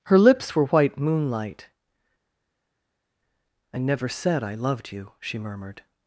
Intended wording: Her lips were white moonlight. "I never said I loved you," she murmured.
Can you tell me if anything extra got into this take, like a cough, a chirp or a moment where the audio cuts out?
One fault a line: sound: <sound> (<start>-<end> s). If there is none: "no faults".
no faults